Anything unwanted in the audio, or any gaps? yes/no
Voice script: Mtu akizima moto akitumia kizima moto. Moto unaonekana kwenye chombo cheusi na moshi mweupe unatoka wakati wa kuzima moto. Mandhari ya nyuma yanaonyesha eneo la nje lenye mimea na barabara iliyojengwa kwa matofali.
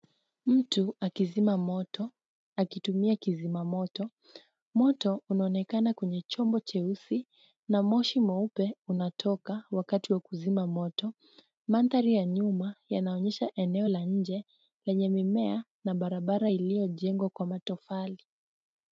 no